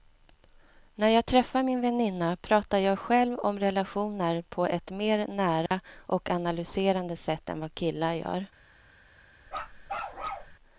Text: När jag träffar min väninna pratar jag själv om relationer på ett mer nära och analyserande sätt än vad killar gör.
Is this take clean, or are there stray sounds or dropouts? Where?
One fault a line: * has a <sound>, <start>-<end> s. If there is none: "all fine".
* has a dropout, 5.7-5.7 s
* has a bark, 9.5-10.6 s